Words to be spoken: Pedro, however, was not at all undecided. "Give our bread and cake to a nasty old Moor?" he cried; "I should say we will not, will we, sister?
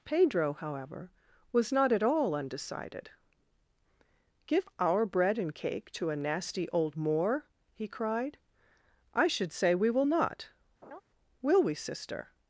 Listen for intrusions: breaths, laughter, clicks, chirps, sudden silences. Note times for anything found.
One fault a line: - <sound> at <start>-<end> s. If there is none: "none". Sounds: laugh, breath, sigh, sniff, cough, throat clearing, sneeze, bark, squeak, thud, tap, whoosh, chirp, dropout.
- laugh at 10.8-11.0 s